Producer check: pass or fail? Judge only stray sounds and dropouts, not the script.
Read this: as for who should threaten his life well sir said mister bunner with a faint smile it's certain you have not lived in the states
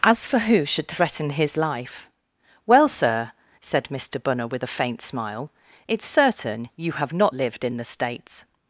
pass